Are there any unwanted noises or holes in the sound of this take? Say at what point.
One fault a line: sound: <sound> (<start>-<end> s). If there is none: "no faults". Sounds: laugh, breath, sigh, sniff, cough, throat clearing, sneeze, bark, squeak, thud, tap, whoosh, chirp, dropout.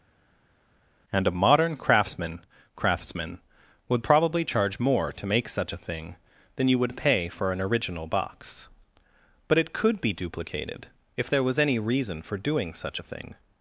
no faults